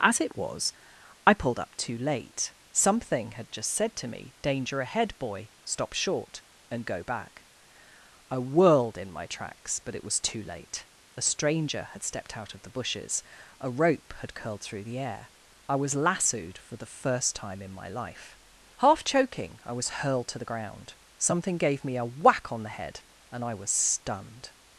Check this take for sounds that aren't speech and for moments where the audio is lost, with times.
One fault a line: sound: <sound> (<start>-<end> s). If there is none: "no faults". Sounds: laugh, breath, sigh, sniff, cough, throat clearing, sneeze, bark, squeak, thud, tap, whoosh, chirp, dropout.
no faults